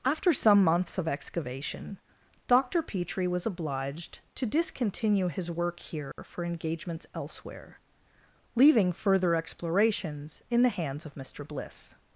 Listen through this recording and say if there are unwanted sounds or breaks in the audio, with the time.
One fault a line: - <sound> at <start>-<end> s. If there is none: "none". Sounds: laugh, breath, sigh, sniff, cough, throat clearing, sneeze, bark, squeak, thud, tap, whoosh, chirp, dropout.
- dropout at 6.1-6.2 s